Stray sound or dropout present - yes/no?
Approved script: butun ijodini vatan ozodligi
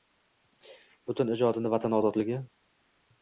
no